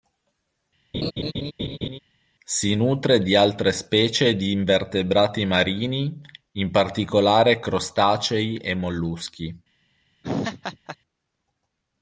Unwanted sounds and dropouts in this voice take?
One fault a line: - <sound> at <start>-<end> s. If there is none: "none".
- laugh at 0.9-2.0 s
- laugh at 10.2-11.0 s